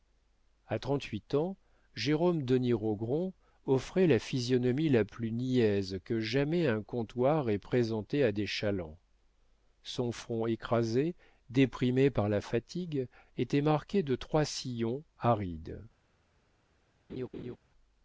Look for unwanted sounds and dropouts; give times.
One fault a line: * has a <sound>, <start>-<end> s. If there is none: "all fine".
* has a laugh, 17.1-17.6 s